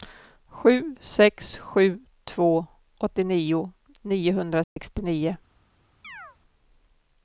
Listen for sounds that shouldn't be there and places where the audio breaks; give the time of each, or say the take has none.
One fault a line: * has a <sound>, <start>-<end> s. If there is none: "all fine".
* has a dropout, 4.6-4.8 s
* has a chirp, 6.0-6.4 s